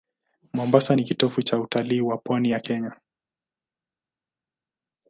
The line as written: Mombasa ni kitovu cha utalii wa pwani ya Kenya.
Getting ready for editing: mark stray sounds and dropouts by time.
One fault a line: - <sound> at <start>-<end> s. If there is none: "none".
none